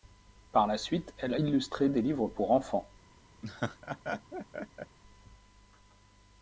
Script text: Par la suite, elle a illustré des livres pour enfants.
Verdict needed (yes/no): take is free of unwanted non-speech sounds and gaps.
no